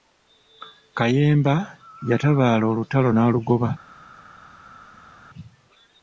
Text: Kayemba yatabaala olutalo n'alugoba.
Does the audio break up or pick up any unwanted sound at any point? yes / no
no